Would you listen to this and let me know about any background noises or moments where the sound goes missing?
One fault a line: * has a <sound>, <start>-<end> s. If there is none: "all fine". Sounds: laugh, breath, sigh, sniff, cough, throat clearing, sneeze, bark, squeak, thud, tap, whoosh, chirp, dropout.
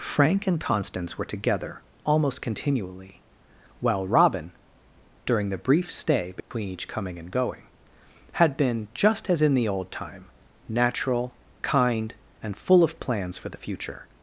* has a dropout, 6.4-6.5 s